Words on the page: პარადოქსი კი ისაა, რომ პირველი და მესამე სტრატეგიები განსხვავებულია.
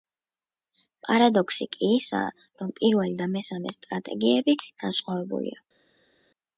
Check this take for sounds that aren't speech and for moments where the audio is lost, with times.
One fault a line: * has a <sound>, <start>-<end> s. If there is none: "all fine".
all fine